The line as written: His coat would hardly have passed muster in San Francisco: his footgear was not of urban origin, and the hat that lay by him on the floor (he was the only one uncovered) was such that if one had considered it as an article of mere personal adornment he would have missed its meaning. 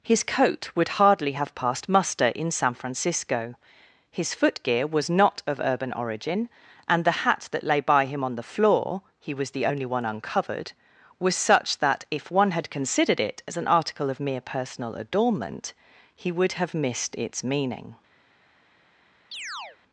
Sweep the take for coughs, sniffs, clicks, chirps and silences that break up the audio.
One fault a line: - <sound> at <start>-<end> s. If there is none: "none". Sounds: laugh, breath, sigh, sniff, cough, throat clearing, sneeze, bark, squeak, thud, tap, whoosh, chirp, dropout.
- chirp at 19.3-19.8 s